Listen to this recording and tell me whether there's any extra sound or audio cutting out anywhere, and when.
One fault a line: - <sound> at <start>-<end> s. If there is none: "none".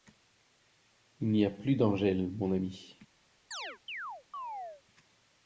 - chirp at 3.5-4.8 s